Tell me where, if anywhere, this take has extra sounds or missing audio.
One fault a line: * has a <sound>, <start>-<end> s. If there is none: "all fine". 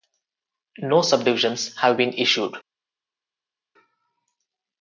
all fine